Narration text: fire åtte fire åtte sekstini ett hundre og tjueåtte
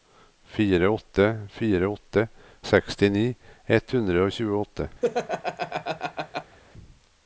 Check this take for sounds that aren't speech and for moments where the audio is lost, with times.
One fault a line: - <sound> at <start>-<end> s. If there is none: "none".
- laugh at 5.0-6.6 s